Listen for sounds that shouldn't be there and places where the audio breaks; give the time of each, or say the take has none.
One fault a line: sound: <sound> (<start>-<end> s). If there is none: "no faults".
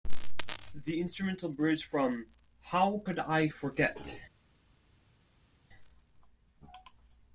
no faults